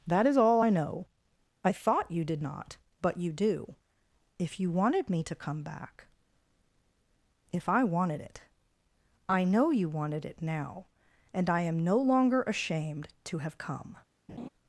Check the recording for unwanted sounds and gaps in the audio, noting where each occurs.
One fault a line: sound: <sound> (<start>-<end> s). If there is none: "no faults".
sound: laugh (14.3-14.5 s)